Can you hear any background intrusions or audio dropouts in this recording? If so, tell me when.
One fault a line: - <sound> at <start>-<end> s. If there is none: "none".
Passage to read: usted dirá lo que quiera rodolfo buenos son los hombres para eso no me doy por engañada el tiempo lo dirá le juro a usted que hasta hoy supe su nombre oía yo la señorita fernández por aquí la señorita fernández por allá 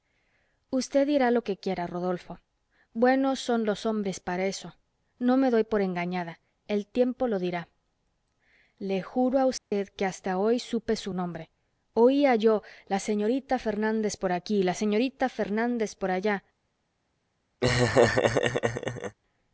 - dropout at 9.6-9.7 s
- laugh at 17.6-19.2 s